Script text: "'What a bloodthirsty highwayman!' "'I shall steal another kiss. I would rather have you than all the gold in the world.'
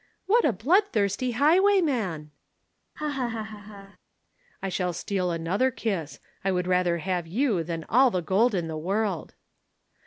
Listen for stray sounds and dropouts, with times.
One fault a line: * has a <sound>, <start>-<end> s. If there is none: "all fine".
* has a laugh, 3.0-4.0 s